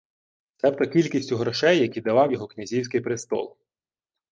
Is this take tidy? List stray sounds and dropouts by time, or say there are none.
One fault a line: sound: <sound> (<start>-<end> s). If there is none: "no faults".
no faults